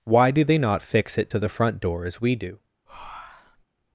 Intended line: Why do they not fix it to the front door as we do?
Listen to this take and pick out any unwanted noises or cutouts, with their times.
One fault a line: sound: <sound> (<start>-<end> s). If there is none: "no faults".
sound: breath (2.9-3.6 s)